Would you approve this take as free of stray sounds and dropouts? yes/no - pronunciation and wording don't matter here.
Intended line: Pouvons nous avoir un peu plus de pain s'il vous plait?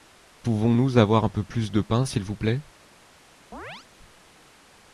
no